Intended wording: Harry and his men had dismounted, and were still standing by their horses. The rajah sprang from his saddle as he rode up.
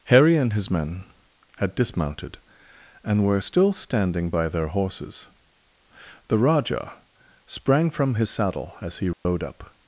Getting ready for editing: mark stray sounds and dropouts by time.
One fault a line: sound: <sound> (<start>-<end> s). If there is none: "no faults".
sound: dropout (9.1-9.2 s)